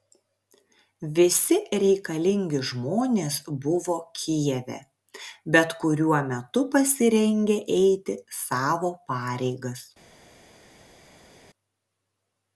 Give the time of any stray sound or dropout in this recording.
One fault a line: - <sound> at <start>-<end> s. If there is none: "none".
none